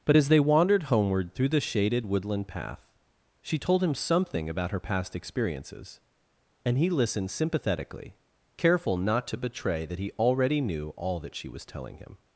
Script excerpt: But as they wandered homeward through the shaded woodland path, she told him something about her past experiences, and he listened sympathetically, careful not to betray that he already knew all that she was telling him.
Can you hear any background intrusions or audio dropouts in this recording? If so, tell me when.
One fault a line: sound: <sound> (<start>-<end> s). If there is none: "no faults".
no faults